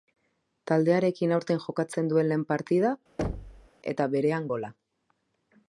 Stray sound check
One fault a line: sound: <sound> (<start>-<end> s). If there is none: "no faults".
sound: thud (3.2-3.7 s)